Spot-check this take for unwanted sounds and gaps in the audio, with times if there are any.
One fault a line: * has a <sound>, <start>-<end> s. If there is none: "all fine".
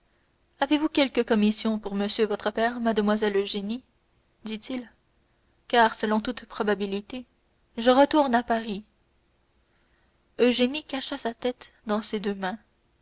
all fine